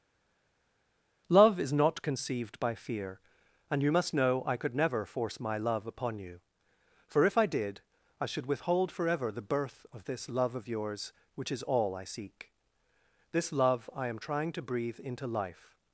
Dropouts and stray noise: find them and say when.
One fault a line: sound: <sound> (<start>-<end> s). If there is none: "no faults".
no faults